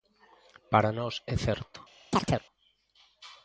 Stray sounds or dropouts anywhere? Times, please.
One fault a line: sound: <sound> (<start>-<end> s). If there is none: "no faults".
sound: chirp (2.1-2.4 s)